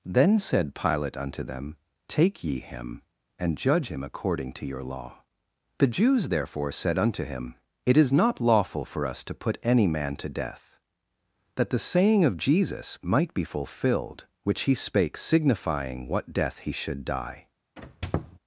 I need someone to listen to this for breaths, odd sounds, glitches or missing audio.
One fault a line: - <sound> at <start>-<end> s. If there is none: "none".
- squeak at 17.8-18.4 s